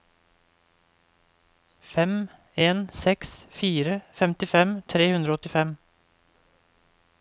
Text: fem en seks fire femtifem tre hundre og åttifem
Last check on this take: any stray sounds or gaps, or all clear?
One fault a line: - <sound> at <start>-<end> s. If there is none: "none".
none